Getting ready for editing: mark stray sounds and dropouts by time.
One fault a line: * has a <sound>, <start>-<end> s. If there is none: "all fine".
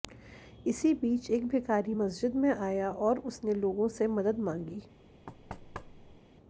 * has a thud, 5.3-6.2 s